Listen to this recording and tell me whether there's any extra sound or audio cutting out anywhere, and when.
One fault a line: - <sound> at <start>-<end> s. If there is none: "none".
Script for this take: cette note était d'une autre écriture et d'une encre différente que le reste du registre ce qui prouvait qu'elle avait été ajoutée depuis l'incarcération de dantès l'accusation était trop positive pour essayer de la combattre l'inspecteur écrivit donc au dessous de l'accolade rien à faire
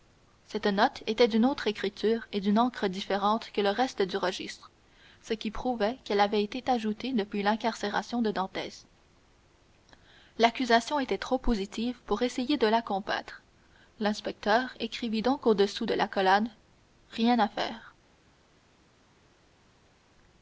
none